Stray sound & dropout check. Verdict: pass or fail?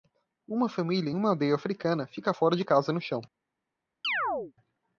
fail